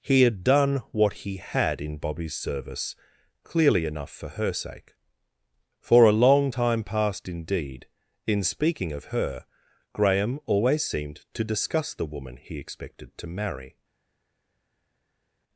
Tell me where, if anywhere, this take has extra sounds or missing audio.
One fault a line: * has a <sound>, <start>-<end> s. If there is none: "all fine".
all fine